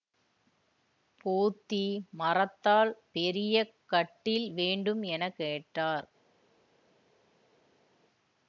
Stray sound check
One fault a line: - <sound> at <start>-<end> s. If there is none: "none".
none